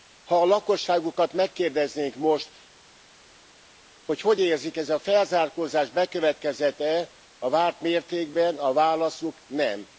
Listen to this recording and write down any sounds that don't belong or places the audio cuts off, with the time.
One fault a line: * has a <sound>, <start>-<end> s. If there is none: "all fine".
all fine